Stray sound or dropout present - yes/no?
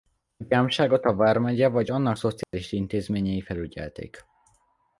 yes